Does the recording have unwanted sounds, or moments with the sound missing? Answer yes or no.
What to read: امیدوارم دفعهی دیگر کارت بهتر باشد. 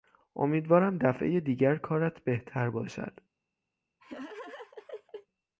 yes